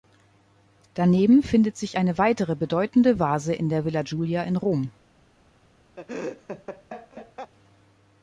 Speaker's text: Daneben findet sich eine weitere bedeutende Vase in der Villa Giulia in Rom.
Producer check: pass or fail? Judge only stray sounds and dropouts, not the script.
fail